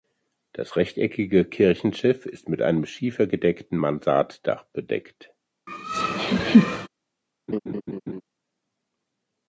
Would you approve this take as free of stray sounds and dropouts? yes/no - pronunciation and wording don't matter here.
no